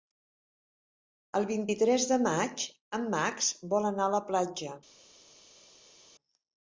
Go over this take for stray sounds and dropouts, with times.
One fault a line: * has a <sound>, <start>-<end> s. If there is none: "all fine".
all fine